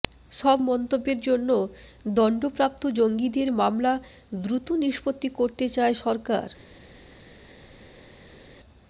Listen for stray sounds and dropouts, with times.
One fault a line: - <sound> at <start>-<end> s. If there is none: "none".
none